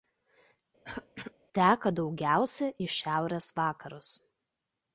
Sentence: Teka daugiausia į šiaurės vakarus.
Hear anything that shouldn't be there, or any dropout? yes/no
yes